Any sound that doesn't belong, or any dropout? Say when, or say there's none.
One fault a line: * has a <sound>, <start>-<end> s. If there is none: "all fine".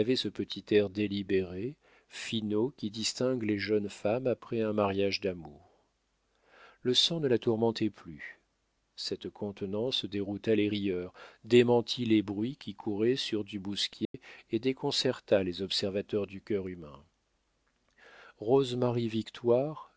* has a dropout, 14.0-14.1 s